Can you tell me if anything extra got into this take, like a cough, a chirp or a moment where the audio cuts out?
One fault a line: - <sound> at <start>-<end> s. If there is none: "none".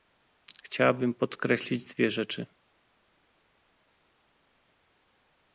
none